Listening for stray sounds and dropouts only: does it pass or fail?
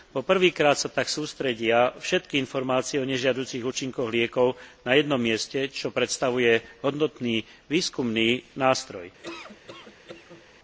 fail